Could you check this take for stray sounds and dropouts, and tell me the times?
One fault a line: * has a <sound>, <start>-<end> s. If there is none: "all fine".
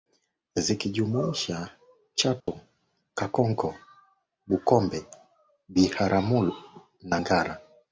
* has a dropout, 2.4-2.5 s